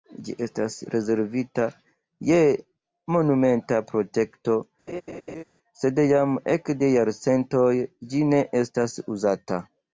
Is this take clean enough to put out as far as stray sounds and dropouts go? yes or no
no